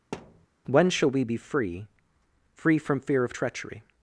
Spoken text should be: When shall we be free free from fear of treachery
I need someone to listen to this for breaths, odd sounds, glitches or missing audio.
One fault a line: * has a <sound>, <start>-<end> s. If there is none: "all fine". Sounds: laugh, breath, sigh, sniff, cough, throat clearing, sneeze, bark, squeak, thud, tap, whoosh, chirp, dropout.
* has a thud, 0.1-0.5 s